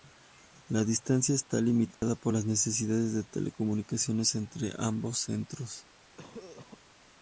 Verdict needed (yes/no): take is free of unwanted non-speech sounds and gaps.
no